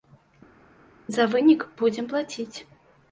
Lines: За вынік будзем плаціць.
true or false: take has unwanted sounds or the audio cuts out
false